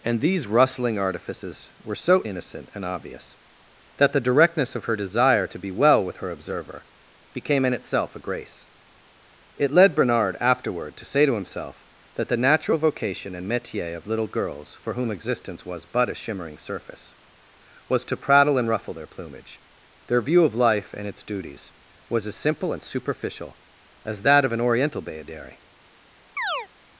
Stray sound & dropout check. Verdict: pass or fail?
fail